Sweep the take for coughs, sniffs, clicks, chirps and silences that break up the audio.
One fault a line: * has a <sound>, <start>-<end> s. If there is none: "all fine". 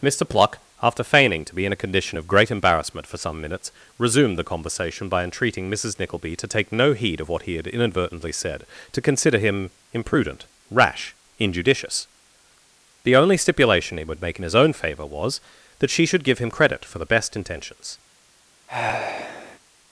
* has a sigh, 18.7-19.6 s